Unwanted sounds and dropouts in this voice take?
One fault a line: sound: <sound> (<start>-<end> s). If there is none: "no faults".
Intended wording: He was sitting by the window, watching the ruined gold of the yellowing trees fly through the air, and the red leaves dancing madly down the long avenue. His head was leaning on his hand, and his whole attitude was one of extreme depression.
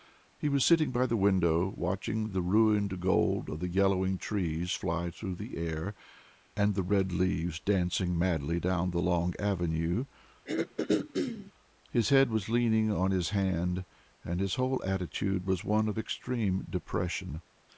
sound: throat clearing (10.5-11.5 s)